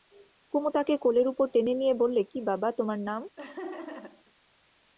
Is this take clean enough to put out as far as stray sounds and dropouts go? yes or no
no